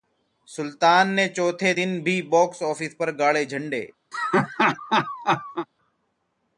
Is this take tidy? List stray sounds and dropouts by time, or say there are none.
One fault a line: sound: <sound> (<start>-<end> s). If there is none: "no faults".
sound: laugh (4.1-5.7 s)